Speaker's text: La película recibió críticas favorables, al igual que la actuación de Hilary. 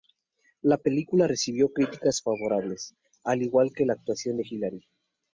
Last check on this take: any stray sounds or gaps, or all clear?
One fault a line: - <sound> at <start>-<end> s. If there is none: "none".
none